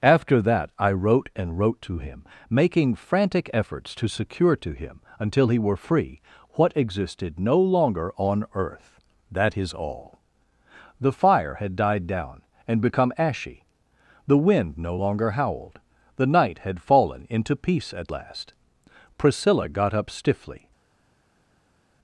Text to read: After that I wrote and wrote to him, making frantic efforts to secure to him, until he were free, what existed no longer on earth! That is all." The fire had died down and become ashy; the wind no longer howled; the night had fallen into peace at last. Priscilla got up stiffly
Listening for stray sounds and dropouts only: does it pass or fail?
pass